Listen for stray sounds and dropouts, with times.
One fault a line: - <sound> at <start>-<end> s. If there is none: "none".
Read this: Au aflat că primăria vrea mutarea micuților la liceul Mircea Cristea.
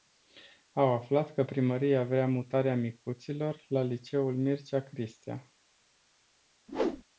- whoosh at 6.7-7.0 s